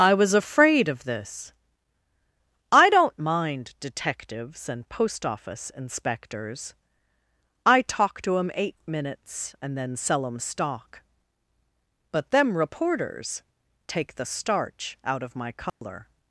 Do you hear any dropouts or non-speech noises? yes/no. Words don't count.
yes